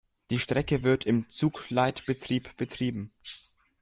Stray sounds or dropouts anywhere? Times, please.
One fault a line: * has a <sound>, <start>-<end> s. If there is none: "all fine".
all fine